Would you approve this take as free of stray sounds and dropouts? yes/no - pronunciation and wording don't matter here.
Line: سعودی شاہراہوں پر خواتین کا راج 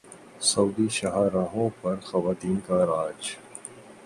yes